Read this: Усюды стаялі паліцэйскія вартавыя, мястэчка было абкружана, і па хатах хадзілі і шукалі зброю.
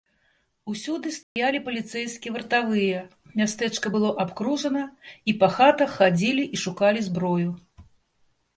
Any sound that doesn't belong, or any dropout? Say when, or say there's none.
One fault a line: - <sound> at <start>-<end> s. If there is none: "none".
- dropout at 1.2-1.4 s